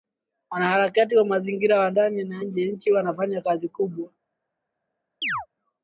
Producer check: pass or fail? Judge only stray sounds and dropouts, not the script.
fail